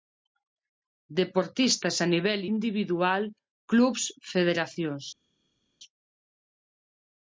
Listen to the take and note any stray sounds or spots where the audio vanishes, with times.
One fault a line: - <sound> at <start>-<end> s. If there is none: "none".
none